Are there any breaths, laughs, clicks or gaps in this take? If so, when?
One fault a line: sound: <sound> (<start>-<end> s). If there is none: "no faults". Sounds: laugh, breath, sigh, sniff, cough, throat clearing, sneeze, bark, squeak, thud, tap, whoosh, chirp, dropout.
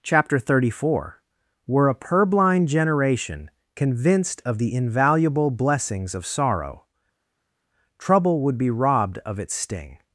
no faults